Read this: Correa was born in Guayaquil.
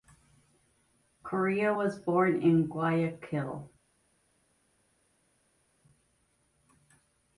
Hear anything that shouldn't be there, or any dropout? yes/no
no